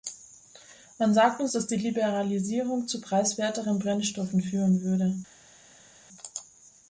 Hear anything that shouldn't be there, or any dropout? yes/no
no